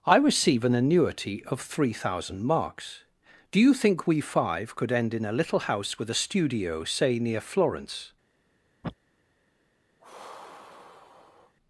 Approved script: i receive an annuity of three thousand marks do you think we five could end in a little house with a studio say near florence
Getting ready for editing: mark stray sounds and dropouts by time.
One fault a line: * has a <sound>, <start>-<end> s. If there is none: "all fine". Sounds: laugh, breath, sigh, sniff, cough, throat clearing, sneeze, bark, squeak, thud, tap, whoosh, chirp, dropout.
* has a sniff, 8.8-8.9 s
* has a sigh, 10.0-11.6 s